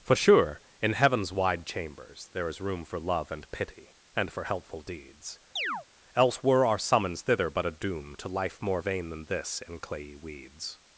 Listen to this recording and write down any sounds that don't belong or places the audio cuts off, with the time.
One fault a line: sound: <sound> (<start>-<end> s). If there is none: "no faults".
sound: chirp (5.6-5.9 s)